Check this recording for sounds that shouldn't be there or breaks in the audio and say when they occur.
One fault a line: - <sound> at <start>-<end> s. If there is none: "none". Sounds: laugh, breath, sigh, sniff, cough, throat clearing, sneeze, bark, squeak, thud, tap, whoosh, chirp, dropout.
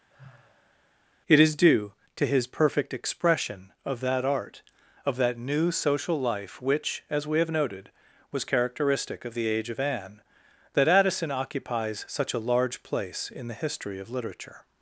- sigh at 0.1-0.9 s